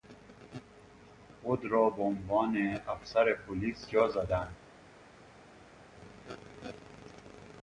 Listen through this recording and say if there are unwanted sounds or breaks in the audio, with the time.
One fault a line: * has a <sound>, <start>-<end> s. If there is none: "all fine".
all fine